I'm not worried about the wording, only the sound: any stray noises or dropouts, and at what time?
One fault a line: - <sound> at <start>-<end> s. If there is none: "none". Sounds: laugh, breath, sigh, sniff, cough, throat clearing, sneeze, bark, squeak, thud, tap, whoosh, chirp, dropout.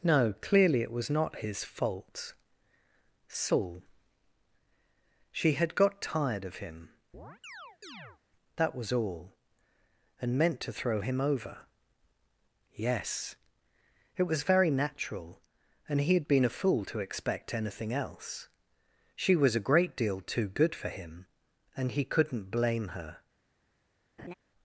- chirp at 7.1-8.2 s
- laugh at 24.2-24.3 s